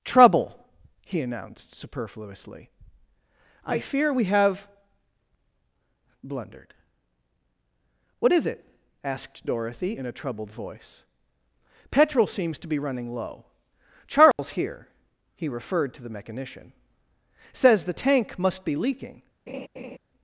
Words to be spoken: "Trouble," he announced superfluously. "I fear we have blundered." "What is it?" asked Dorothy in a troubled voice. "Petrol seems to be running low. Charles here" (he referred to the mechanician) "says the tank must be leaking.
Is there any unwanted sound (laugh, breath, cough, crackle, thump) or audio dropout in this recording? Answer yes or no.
yes